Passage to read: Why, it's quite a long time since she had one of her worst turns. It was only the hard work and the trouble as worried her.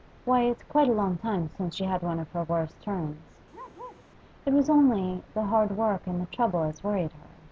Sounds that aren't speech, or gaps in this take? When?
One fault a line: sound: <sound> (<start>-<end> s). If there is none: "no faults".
sound: bark (3.5-4.1 s)